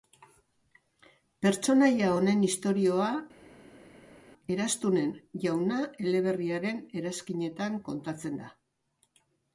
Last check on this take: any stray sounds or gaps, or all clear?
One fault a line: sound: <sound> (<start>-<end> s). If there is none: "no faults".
no faults